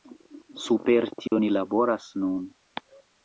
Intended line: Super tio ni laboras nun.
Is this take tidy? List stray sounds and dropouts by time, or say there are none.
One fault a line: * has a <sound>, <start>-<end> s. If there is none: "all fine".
* has a dropout, 1.3-1.3 s